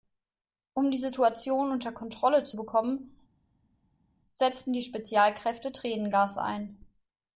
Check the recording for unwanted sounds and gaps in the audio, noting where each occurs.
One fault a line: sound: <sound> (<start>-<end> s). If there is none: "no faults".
no faults